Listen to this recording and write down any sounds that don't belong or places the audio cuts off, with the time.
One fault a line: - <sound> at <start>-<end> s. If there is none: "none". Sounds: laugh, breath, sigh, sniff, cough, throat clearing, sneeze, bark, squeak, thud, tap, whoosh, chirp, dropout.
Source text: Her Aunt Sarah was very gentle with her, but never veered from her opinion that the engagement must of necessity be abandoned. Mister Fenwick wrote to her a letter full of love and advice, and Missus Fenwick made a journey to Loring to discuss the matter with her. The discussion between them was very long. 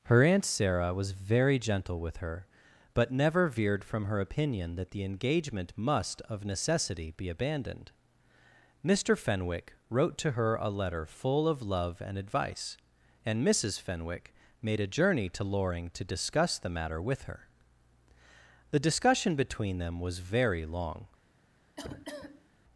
- cough at 21.8-22.5 s